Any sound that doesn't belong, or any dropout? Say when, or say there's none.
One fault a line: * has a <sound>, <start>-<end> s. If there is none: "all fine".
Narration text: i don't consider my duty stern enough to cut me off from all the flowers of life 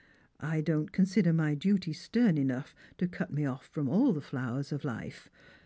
all fine